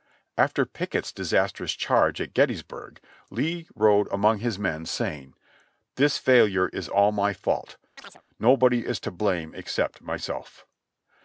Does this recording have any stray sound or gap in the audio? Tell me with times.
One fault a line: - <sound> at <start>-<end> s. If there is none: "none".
- chirp at 8.0-8.2 s